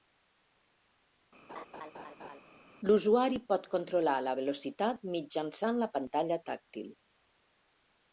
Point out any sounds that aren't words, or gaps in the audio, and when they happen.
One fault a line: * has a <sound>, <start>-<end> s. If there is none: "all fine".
* has a laugh, 1.5-2.4 s